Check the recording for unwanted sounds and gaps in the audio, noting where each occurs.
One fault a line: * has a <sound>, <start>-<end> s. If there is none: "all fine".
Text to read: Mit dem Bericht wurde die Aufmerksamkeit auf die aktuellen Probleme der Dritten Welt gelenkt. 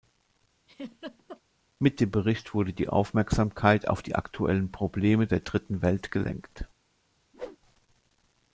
* has a laugh, 0.7-1.4 s
* has a whoosh, 7.3-7.6 s